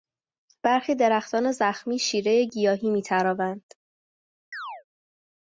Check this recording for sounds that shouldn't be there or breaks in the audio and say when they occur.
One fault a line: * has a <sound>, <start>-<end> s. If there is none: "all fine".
* has a chirp, 4.5-4.8 s